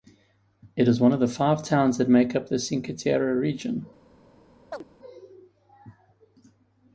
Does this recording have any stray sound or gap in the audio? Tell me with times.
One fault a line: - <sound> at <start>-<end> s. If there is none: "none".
- chirp at 4.7-4.8 s